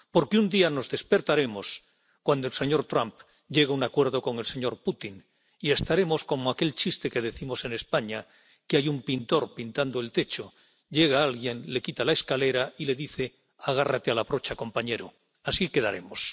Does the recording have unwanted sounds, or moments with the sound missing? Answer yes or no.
no